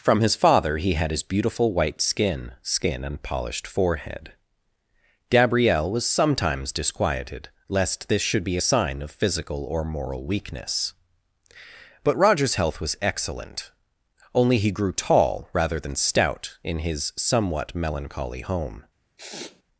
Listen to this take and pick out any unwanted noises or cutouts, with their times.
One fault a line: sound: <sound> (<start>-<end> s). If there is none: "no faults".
sound: sniff (19.2-19.6 s)